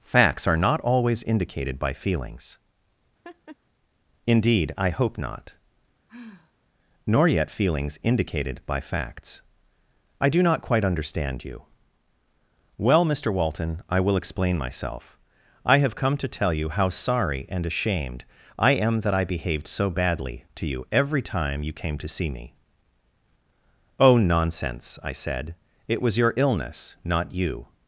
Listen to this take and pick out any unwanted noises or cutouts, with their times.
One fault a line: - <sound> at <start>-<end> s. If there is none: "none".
- laugh at 3.2-3.6 s
- sigh at 6.1-6.5 s